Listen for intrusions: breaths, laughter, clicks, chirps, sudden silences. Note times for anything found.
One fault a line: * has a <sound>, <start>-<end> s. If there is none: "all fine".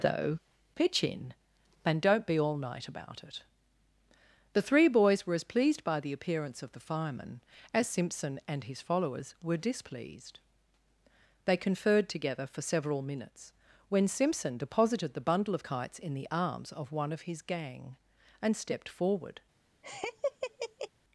* has a laugh, 19.8-20.9 s